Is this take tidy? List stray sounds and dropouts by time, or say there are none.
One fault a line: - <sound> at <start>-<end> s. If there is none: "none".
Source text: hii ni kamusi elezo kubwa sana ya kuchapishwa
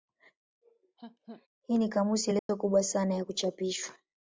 - laugh at 0.6-1.5 s
- dropout at 2.4-2.5 s